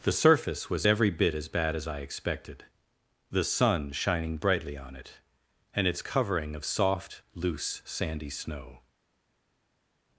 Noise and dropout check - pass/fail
pass